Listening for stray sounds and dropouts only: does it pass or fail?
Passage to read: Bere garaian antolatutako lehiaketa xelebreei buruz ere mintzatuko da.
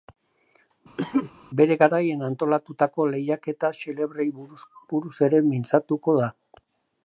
fail